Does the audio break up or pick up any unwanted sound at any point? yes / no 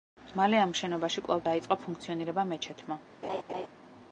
yes